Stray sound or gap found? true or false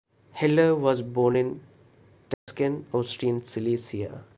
true